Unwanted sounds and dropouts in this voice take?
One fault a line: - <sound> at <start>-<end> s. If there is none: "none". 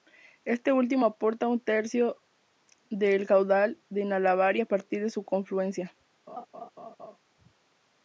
- laugh at 6.3-7.2 s